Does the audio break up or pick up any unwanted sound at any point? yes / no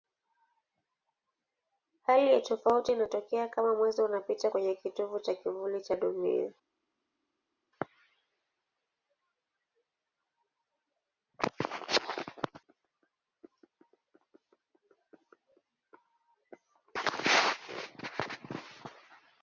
no